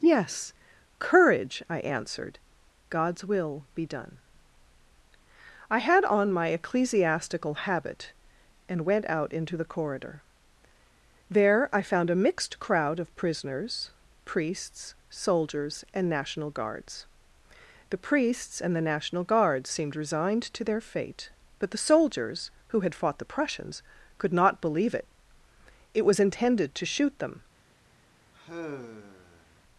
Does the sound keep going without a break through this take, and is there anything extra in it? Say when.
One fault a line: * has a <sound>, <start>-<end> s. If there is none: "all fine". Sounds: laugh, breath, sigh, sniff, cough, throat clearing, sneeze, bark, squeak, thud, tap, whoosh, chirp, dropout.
* has a sigh, 28.3-29.6 s